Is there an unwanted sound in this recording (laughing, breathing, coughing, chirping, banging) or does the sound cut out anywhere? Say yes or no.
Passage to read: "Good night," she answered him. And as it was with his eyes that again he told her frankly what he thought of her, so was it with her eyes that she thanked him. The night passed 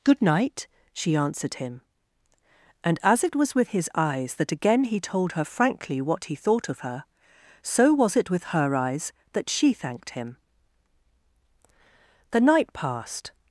no